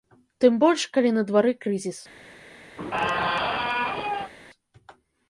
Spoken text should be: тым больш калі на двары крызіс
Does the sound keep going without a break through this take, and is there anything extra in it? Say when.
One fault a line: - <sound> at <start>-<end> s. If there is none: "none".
- squeak at 2.8-4.3 s